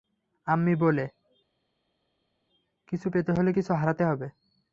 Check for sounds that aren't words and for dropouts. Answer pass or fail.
pass